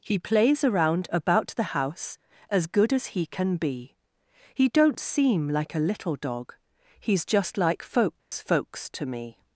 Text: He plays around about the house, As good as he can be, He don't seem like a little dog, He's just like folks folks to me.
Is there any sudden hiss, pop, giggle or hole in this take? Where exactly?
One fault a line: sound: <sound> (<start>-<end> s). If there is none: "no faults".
sound: dropout (8.2-8.3 s)